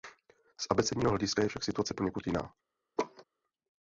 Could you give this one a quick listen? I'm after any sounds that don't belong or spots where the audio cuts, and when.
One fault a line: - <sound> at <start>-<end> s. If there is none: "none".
- laugh at 3.0-3.2 s